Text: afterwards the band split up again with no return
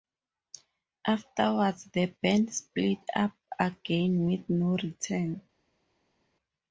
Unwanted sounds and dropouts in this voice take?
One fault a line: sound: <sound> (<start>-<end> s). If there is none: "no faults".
no faults